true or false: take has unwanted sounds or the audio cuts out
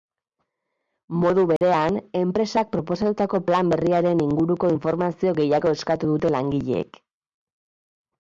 true